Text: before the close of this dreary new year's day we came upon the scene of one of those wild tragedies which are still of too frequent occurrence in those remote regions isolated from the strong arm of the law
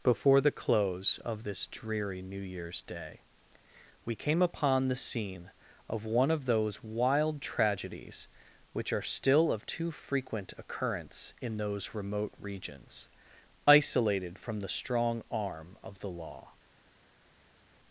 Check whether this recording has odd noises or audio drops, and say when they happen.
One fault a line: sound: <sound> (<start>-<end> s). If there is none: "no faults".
no faults